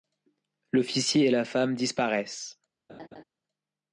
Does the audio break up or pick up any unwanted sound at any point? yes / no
yes